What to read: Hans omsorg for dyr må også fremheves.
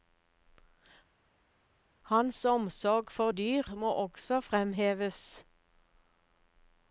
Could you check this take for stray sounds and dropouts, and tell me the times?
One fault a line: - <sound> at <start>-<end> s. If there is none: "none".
none